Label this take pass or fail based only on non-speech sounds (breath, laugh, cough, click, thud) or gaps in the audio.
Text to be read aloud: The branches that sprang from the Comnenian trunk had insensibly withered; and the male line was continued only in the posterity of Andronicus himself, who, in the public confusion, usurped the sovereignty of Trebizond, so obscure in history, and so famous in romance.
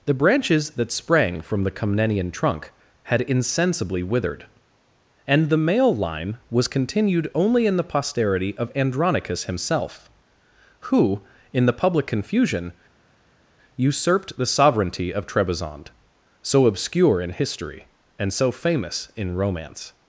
pass